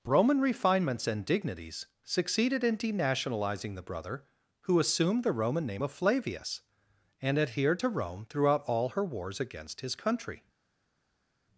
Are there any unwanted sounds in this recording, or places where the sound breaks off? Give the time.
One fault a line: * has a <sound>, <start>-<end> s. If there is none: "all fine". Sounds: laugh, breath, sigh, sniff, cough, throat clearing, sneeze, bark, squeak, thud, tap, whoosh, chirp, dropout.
all fine